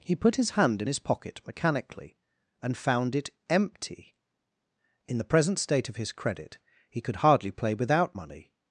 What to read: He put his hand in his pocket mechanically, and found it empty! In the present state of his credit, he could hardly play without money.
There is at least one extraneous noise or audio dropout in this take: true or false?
false